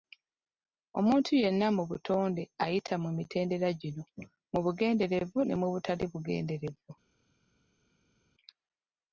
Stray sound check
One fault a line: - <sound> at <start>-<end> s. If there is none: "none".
none